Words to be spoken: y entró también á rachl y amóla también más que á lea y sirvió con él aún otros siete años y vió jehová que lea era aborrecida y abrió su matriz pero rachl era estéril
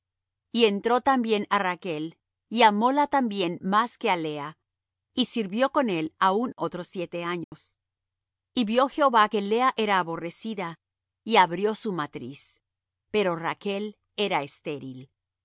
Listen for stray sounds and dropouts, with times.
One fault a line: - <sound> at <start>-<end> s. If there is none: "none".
- dropout at 7.4-7.5 s